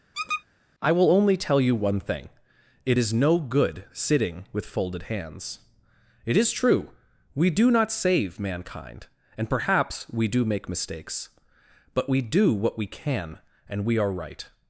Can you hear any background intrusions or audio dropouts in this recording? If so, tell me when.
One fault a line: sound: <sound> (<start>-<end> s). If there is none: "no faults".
sound: squeak (0.1-0.4 s)